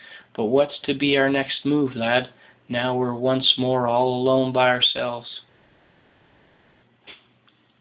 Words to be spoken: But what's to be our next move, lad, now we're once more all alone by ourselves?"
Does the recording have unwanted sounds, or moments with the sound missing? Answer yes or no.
no